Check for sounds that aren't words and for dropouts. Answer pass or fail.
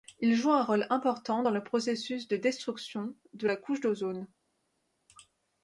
pass